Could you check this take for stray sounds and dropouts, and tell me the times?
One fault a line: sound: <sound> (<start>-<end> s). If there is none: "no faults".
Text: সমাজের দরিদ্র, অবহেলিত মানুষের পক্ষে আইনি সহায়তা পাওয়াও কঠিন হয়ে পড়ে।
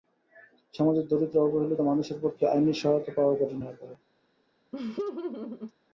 sound: laugh (4.7-5.7 s)